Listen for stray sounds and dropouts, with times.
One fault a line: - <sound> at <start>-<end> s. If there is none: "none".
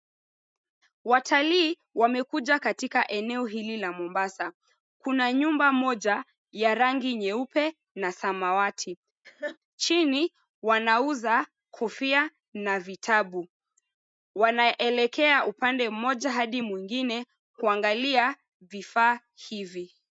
- laugh at 9.2-9.6 s